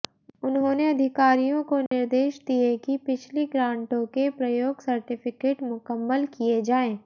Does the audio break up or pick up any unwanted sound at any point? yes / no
yes